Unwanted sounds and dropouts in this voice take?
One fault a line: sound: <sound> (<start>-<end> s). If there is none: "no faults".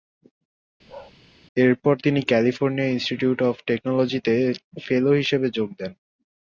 sound: bark (0.9-1.1 s)